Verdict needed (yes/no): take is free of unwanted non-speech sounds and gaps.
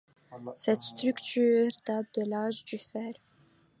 yes